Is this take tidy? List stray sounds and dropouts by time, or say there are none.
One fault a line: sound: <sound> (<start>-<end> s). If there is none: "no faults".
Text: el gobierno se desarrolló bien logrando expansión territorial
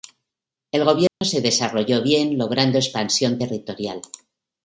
sound: dropout (1.1-1.2 s)